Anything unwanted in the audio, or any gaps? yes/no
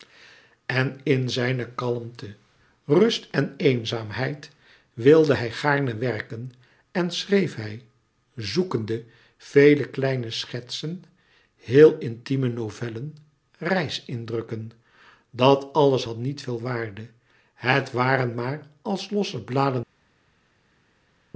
no